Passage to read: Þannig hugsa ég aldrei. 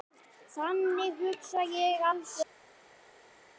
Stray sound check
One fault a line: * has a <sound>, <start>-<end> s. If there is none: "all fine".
all fine